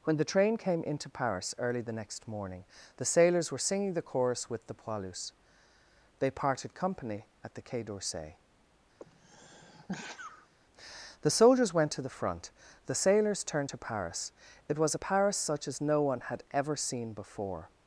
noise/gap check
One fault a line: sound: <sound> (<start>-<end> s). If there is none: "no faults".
sound: sneeze (9.0-10.5 s)